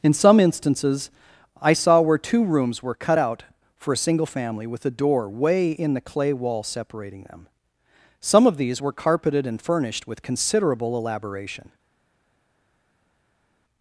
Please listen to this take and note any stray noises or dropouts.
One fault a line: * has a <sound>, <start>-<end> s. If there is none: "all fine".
all fine